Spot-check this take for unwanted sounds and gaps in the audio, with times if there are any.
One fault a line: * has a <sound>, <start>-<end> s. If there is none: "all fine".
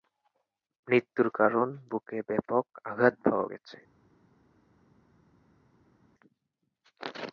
all fine